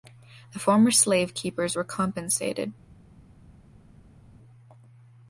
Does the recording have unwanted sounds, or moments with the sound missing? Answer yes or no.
no